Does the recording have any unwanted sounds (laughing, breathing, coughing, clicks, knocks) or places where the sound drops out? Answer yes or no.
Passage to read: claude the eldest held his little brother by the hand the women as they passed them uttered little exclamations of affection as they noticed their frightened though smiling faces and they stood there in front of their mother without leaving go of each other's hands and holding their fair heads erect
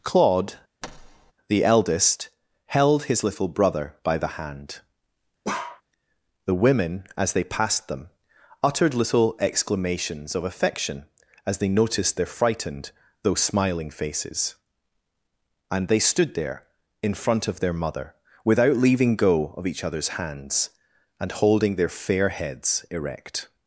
yes